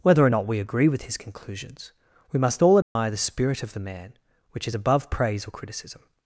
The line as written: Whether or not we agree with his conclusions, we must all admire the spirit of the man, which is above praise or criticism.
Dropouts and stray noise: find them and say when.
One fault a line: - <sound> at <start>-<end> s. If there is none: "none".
- dropout at 2.8-3.0 s